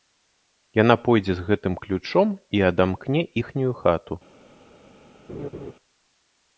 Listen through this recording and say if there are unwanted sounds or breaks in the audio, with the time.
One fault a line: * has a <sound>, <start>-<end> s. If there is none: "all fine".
* has a laugh, 5.3-5.7 s